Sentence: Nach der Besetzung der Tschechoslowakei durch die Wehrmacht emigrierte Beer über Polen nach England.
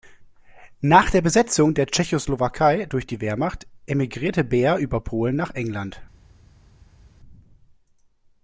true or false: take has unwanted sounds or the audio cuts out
false